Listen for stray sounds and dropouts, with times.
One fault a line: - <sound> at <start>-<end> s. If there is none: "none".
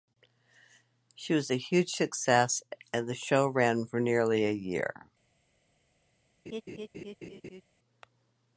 - laugh at 6.5-7.6 s